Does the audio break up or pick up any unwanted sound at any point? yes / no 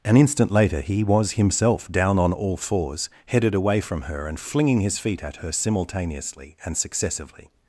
no